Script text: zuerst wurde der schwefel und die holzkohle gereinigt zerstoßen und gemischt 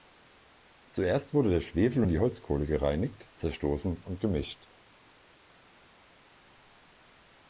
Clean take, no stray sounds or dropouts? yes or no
yes